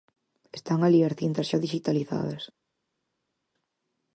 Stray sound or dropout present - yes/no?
no